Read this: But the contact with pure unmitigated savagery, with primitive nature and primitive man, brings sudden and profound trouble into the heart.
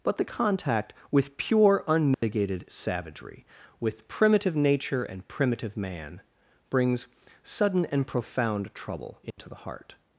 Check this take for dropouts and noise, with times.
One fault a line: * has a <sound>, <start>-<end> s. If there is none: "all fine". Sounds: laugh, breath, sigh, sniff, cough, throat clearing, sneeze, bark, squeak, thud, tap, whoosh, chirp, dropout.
* has a dropout, 2.1-2.2 s
* has a dropout, 9.3-9.4 s